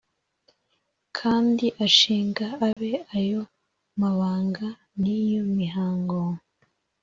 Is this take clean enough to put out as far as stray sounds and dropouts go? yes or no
no